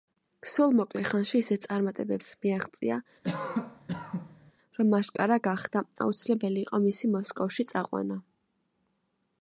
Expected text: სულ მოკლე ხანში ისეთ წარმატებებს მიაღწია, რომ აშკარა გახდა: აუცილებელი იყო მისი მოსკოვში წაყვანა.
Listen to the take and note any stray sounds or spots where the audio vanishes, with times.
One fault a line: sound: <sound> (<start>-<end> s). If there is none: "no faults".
sound: cough (3.2-4.5 s)